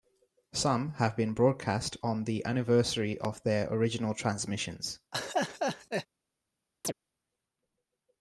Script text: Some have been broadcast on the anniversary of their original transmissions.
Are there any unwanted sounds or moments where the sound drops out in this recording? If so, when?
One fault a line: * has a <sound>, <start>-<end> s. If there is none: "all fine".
* has a laugh, 5.1-6.1 s
* has a chirp, 6.8-6.9 s